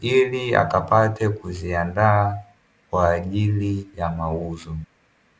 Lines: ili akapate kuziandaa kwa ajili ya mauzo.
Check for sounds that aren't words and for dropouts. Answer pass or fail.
pass